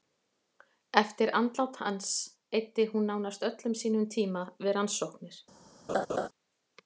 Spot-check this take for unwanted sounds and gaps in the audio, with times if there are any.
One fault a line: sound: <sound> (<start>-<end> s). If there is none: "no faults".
sound: laugh (5.9-6.3 s)